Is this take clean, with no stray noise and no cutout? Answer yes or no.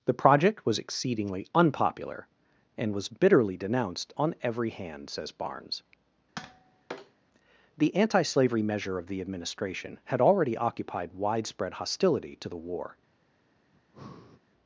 no